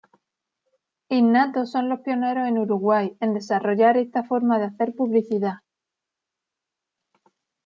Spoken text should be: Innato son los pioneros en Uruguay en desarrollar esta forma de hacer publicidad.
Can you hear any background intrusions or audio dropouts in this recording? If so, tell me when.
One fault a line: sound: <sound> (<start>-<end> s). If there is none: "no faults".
no faults